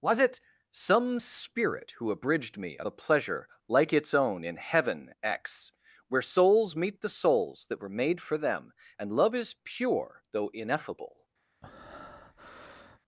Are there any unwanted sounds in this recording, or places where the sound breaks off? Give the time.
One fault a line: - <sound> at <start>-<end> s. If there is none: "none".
- breath at 11.6-13.0 s